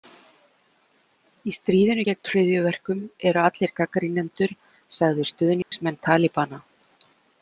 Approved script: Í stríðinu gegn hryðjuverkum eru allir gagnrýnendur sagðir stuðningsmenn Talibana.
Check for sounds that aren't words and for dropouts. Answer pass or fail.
fail